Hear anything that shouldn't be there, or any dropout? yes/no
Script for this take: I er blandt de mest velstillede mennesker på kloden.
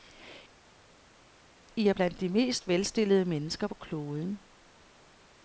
no